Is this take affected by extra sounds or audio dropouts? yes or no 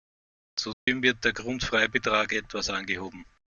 yes